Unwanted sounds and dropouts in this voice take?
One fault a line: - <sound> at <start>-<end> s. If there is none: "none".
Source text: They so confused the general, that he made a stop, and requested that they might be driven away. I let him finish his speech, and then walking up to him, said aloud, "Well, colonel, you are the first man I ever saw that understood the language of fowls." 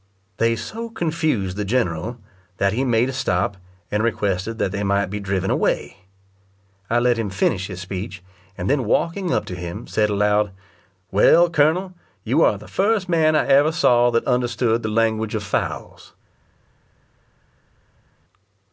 none